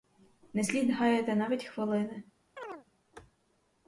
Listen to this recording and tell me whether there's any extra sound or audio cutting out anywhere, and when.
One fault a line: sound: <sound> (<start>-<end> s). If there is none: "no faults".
sound: chirp (2.6-2.8 s)